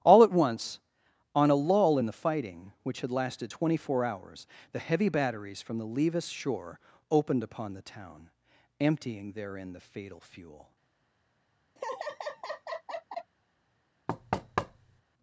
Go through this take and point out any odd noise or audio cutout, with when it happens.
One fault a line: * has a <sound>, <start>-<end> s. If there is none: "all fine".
* has a laugh, 11.8-13.3 s
* has a thud, 14.1-15.0 s